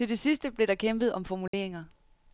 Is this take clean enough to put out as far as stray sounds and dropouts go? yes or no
no